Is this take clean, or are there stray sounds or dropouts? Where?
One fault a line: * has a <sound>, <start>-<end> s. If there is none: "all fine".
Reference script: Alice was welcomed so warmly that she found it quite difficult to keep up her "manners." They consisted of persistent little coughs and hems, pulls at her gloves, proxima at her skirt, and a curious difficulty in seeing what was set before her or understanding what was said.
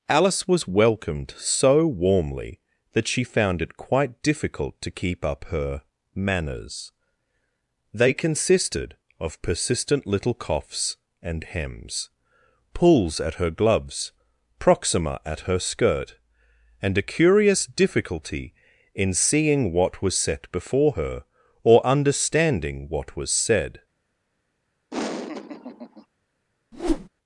* has a laugh, 24.9-26.1 s
* has a whoosh, 26.7-27.1 s